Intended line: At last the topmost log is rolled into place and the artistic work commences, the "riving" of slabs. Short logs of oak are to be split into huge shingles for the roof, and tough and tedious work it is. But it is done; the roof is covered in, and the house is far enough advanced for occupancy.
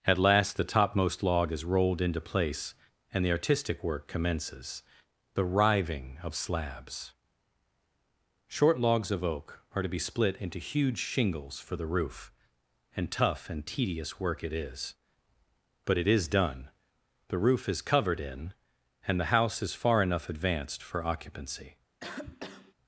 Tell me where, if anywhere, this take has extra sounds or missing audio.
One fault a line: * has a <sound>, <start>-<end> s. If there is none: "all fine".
* has a cough, 22.0-22.7 s